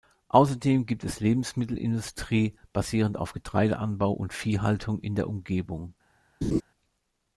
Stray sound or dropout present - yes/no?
yes